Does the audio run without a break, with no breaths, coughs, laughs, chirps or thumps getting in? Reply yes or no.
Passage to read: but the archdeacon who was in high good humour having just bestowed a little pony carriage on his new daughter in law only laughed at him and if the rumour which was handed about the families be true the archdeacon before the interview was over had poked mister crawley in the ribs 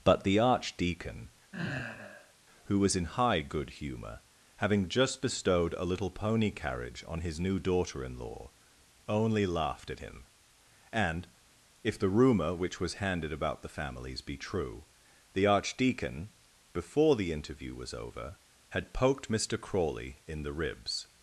no